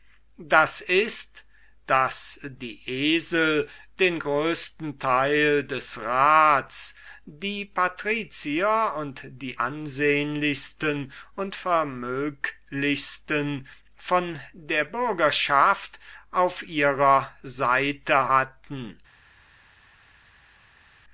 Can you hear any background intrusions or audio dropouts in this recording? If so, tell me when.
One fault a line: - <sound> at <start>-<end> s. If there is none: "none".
none